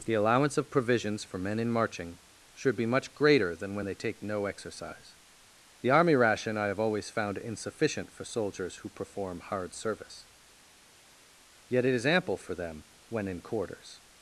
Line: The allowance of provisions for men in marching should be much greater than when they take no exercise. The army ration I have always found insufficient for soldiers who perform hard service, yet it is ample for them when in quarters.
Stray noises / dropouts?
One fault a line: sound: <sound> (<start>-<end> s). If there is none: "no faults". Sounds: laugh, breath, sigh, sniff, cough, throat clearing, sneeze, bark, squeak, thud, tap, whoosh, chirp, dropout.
no faults